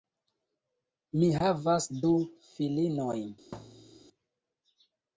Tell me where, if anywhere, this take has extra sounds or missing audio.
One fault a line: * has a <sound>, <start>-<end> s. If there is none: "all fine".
* has a thud, 3.5-4.1 s